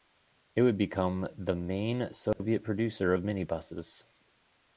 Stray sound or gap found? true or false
true